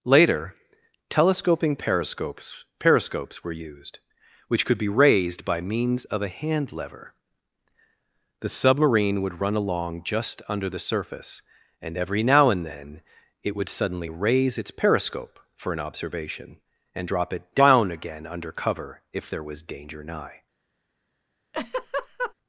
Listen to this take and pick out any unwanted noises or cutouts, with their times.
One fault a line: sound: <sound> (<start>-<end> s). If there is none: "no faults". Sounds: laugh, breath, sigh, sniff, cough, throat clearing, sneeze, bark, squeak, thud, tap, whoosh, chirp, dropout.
sound: laugh (21.5-22.3 s)